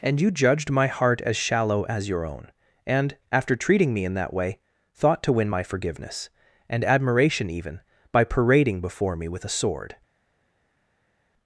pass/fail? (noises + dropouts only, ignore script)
pass